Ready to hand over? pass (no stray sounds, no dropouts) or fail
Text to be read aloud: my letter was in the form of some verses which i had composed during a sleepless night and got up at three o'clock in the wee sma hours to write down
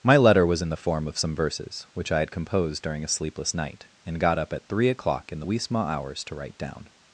pass